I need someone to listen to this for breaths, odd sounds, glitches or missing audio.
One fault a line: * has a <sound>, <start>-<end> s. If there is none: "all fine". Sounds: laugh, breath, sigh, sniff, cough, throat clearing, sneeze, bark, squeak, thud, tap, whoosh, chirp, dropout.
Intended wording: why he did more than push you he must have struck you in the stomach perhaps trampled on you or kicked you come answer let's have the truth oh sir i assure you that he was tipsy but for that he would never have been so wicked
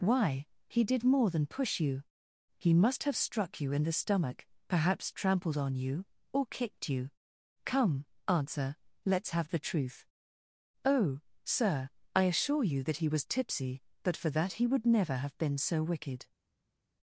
all fine